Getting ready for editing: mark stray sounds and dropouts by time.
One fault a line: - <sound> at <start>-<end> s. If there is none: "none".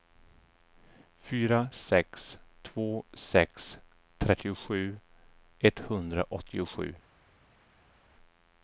none